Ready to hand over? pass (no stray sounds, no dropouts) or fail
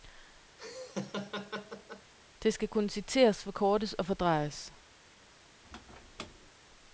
fail